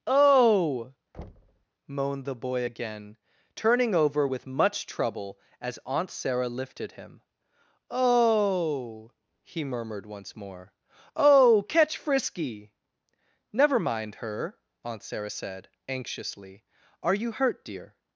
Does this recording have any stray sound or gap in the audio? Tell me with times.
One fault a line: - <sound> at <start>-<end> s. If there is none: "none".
- thud at 1.1-1.7 s